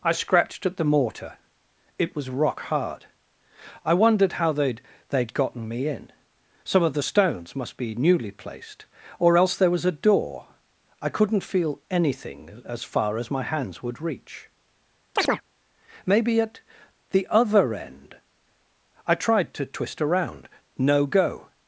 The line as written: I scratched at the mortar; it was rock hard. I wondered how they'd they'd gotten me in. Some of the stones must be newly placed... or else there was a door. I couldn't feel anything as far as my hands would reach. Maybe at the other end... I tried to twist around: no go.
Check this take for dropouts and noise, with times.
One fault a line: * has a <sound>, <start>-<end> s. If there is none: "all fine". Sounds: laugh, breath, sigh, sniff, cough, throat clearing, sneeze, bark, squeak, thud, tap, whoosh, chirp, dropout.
* has a chirp, 15.2-15.4 s